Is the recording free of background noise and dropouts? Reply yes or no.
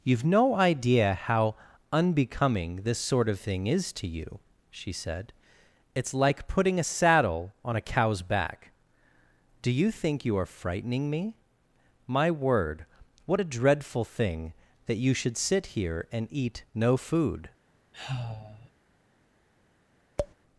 no